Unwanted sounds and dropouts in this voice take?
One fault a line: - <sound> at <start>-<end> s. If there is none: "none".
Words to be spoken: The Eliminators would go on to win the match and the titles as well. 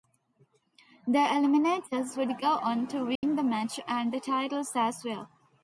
- dropout at 3.2-3.2 s